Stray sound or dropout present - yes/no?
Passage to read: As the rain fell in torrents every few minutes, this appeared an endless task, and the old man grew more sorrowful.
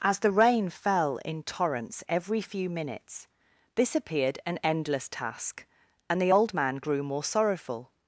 no